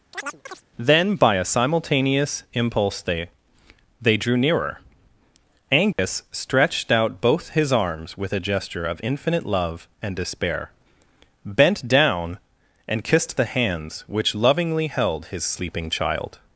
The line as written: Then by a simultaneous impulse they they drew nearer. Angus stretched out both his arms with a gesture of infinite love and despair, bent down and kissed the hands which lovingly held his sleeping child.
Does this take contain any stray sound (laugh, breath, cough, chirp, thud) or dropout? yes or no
yes